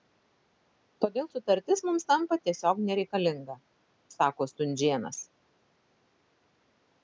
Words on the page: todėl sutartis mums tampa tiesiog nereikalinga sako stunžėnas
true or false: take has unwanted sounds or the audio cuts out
false